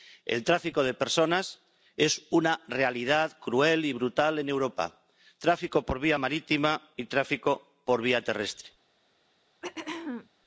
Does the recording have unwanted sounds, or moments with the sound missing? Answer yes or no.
yes